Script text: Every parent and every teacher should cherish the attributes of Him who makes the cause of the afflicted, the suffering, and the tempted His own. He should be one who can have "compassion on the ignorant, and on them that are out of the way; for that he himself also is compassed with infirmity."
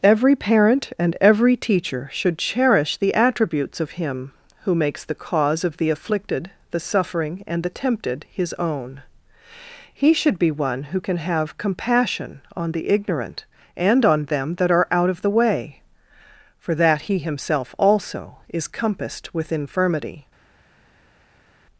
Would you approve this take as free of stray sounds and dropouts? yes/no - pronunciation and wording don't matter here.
yes